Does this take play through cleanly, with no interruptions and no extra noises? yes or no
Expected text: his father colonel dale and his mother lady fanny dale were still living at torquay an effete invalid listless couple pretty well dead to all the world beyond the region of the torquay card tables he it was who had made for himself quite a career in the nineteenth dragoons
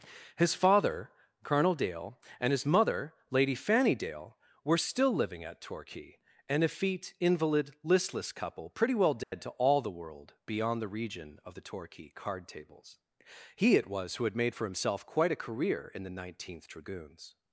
no